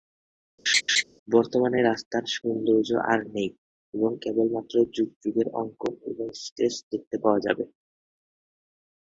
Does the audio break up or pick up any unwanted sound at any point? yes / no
yes